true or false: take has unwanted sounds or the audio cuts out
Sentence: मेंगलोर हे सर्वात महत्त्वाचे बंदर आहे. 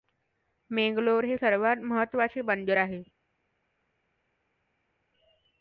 false